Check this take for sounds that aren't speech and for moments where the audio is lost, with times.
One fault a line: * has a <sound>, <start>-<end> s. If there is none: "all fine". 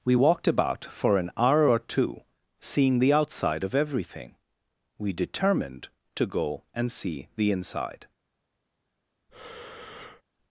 * has a breath, 9.3-10.2 s